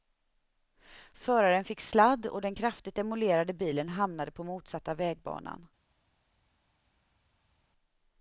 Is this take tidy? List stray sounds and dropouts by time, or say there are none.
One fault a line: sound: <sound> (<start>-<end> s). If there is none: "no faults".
no faults